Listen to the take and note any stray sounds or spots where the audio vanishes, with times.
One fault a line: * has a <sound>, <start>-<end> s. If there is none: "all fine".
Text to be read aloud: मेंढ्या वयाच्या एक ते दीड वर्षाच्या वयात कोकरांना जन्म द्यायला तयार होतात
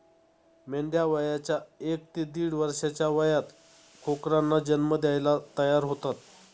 all fine